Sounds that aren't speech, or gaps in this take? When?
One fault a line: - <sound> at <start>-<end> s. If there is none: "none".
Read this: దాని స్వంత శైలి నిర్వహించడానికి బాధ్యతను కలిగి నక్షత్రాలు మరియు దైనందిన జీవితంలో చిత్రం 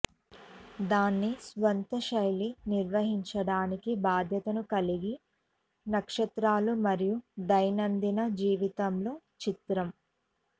none